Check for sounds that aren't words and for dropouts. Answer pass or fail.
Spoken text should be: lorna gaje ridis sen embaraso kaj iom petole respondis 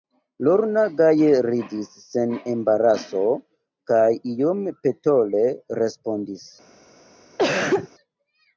fail